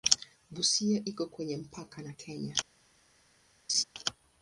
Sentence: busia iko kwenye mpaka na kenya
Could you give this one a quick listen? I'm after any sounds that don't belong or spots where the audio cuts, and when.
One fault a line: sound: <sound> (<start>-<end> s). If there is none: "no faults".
sound: laugh (3.7-3.8 s)